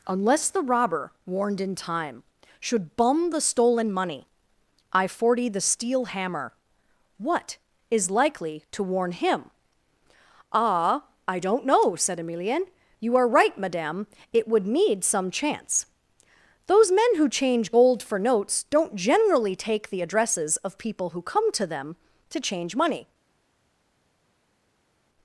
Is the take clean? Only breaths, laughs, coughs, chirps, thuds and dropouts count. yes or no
yes